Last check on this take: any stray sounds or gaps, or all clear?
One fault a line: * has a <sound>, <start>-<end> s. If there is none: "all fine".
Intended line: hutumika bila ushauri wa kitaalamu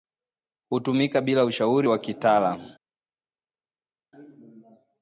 all fine